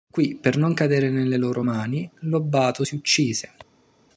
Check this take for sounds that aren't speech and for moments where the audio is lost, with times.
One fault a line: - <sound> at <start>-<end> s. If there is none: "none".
none